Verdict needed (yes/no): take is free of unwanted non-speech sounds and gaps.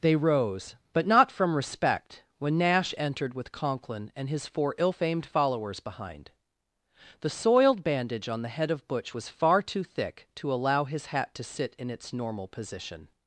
yes